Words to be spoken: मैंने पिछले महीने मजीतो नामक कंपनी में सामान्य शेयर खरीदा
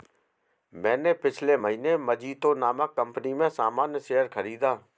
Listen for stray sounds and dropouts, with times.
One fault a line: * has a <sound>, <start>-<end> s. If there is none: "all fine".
all fine